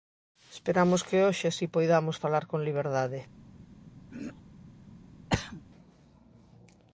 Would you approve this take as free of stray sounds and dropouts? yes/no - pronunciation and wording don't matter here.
no